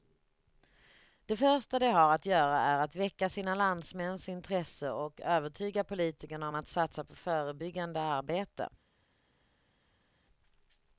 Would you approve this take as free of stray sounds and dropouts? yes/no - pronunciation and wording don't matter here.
yes